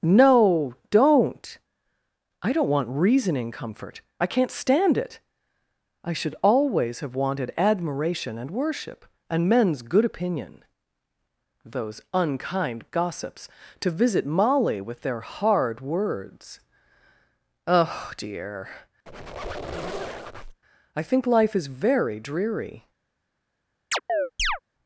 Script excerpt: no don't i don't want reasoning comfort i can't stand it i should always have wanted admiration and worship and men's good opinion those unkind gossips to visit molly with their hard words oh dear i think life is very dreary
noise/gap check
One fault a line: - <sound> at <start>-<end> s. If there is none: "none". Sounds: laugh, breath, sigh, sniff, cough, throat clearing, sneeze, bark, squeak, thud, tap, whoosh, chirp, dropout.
- squeak at 19.1-20.6 s
- chirp at 23.9-24.6 s